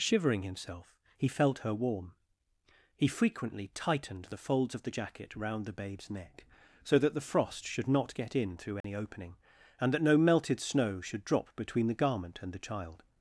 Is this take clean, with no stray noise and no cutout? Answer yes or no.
no